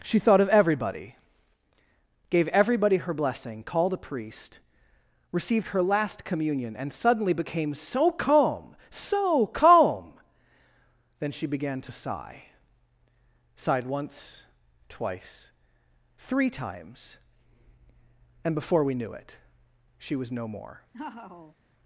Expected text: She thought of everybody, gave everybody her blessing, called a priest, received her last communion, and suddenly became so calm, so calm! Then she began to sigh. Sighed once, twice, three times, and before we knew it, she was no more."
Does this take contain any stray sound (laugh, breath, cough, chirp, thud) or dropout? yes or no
yes